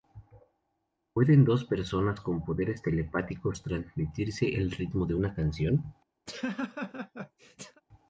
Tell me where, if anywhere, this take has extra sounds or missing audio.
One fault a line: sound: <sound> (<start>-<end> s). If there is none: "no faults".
sound: laugh (6.3-7.8 s)